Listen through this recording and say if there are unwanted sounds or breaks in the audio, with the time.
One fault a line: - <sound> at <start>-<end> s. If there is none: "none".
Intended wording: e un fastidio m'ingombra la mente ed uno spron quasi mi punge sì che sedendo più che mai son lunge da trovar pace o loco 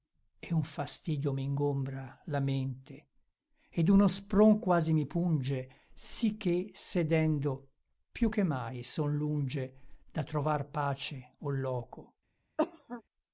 - cough at 12.6-13.0 s